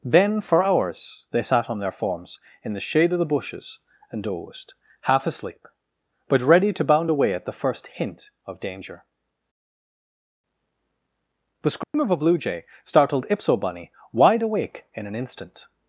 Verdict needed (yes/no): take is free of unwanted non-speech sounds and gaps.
no